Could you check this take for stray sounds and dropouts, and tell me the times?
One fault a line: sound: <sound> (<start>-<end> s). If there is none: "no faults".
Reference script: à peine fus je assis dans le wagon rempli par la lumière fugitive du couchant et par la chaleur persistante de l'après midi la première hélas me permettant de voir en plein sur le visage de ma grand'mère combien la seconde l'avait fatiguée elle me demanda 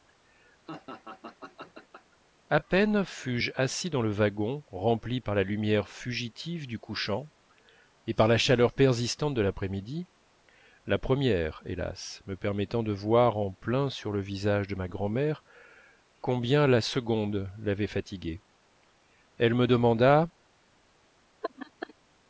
sound: laugh (0.7-2.2 s)
sound: laugh (21.4-21.9 s)